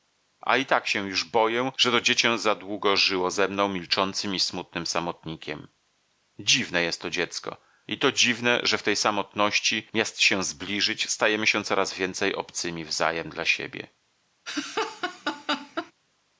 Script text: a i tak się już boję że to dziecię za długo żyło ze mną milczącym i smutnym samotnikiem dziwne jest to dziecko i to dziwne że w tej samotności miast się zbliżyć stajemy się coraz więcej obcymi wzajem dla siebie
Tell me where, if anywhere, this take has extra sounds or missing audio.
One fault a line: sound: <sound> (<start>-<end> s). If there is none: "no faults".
sound: laugh (14.5-15.9 s)